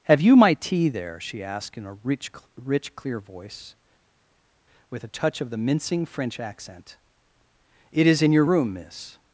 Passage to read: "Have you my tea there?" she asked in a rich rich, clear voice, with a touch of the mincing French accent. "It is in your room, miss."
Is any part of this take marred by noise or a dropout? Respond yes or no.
no